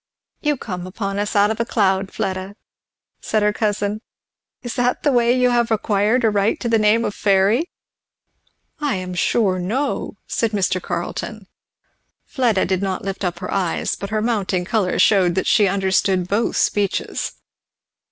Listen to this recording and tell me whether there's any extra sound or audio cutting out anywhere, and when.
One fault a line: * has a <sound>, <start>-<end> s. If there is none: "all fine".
all fine